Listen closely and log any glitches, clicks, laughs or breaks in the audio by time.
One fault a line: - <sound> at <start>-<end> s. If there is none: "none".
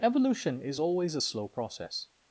none